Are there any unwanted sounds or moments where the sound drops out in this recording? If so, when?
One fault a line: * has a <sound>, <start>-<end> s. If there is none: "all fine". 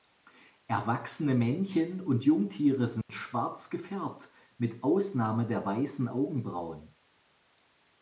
* has a dropout, 3.0-3.1 s